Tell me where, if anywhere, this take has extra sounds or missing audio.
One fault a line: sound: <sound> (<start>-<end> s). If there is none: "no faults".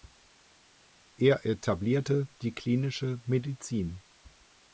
no faults